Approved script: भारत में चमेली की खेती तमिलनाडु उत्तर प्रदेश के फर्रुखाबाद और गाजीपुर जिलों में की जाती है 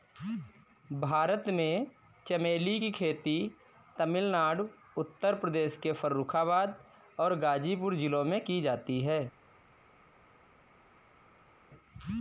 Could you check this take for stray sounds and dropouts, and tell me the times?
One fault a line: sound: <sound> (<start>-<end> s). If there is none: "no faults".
no faults